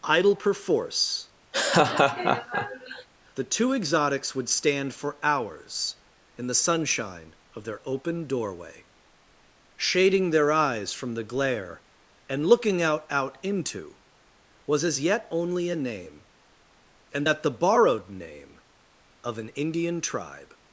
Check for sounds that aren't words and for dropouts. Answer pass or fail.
fail